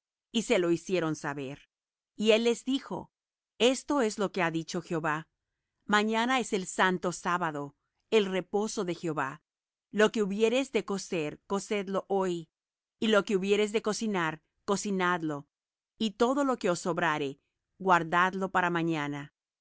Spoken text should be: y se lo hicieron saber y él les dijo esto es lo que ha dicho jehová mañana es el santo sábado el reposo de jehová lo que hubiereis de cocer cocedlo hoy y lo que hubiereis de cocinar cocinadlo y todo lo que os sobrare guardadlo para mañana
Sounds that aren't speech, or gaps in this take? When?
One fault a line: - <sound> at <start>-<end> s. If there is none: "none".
none